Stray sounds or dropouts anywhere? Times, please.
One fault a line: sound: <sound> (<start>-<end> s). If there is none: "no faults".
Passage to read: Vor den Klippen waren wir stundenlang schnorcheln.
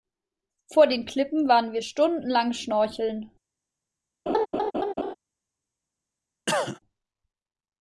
sound: laugh (4.3-5.1 s)
sound: cough (6.5-6.8 s)